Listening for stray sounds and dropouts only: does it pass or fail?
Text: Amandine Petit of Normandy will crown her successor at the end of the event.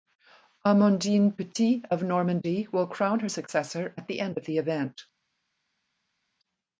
pass